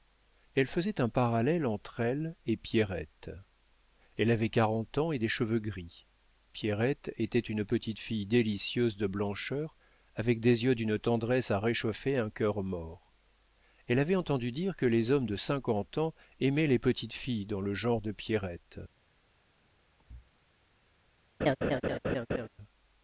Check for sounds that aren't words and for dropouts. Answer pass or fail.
fail